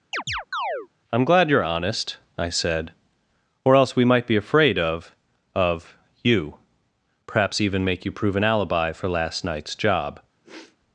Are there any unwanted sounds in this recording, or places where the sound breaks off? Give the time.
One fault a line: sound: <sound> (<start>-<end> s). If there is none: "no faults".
sound: chirp (0.1-0.9 s)
sound: sniff (10.4-10.8 s)